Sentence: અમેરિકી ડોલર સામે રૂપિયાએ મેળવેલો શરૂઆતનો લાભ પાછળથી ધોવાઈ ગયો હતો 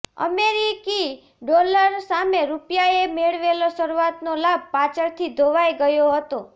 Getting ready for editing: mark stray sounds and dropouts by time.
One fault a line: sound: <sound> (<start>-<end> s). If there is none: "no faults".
no faults